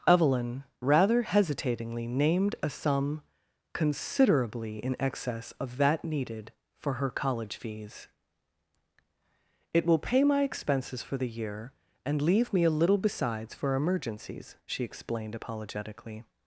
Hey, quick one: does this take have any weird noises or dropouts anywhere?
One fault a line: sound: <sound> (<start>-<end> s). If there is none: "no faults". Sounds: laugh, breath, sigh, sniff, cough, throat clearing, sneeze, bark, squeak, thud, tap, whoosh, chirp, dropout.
no faults